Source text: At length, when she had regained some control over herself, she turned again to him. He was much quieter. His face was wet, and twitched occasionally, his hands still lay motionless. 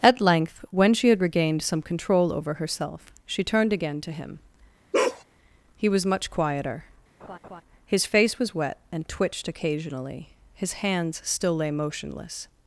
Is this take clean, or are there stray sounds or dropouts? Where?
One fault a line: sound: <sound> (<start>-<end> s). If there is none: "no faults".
sound: bark (4.9-5.2 s)
sound: laugh (7.2-7.6 s)